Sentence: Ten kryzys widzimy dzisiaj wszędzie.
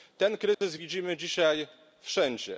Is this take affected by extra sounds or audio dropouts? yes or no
yes